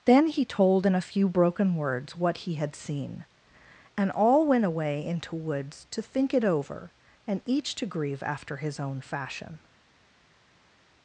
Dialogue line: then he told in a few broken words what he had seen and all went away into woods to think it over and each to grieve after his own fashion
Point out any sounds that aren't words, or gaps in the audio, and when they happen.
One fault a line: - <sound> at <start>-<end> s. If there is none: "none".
none